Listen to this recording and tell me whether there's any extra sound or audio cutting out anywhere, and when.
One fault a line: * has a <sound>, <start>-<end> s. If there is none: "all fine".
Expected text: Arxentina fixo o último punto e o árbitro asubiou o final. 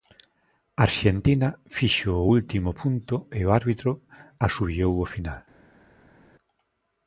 all fine